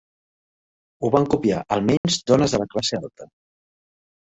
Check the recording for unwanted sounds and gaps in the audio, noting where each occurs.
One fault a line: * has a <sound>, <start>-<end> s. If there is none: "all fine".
* has a dropout, 2.0-2.0 s